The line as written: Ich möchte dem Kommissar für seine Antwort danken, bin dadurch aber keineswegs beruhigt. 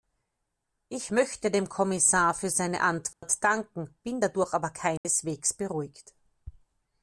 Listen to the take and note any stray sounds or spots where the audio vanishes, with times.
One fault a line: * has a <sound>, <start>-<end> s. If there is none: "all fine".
* has a dropout, 3.1-3.2 s
* has a dropout, 5.0-5.0 s